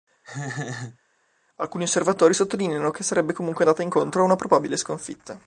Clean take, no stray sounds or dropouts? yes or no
no